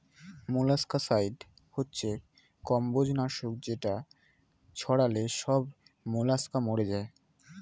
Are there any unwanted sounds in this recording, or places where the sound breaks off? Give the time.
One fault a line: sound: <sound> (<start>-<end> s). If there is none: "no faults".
no faults